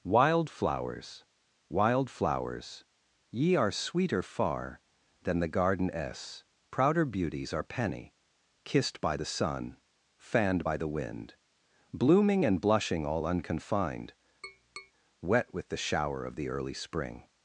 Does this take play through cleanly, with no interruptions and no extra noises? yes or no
no